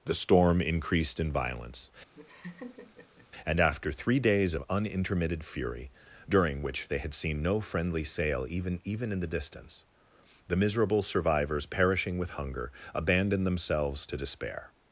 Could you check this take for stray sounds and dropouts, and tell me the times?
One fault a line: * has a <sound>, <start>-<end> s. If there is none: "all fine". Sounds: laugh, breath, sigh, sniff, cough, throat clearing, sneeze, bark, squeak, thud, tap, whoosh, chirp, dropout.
* has a laugh, 2.1-3.3 s